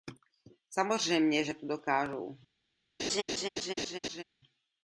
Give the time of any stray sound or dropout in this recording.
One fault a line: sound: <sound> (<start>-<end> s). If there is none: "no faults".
sound: laugh (3.0-4.2 s)